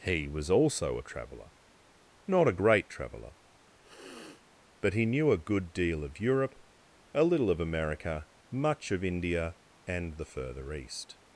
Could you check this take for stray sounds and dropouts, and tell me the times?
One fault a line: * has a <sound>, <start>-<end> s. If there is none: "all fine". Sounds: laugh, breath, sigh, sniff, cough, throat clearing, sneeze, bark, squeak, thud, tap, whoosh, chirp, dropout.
* has a sniff, 3.8-4.5 s